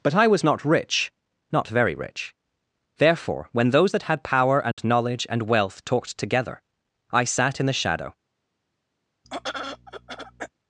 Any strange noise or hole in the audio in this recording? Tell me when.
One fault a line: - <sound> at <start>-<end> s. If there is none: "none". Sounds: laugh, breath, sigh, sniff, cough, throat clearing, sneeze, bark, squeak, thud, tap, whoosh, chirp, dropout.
- dropout at 4.7-4.8 s
- throat clearing at 9.2-10.5 s